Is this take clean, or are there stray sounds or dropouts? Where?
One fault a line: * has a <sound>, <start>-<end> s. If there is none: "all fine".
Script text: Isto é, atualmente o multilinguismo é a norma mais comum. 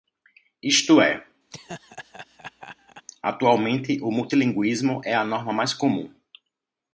* has a laugh, 1.5-3.1 s